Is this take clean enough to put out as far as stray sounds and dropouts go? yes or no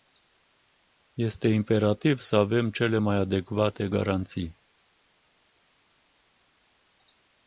yes